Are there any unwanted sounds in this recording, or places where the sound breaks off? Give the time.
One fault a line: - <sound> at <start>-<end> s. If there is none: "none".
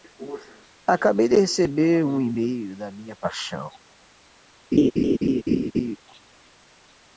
- laugh at 4.7-6.0 s